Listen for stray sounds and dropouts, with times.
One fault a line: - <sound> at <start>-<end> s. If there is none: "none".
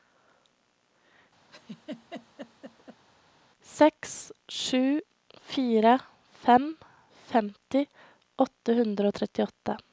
- laugh at 1.5-3.0 s